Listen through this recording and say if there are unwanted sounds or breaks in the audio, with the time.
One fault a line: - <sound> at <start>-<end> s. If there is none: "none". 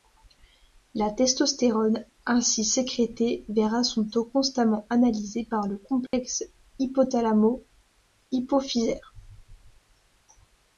- dropout at 6.1-6.1 s